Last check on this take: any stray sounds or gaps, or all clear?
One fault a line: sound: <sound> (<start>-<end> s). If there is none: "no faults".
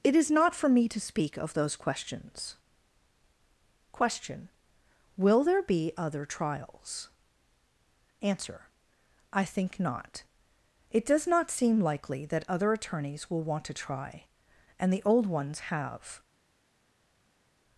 no faults